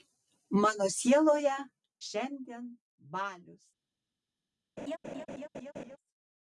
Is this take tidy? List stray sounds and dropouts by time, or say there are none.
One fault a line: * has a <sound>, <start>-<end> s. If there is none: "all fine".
* has a laugh, 4.8-6.0 s